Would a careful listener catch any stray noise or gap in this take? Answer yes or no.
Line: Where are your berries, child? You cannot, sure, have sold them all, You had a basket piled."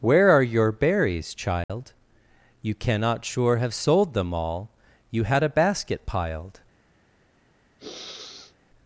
yes